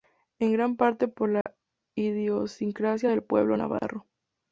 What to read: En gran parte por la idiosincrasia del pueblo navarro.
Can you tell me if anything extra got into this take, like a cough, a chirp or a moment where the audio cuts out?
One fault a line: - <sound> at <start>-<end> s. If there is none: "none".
- dropout at 1.4-1.5 s